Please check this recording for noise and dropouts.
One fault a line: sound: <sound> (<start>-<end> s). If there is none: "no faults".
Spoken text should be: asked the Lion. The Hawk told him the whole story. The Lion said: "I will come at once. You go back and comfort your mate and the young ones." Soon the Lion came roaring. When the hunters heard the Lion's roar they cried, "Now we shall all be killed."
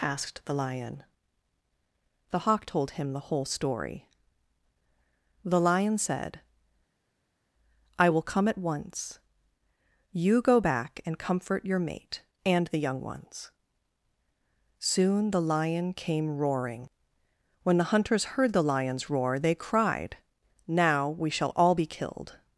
no faults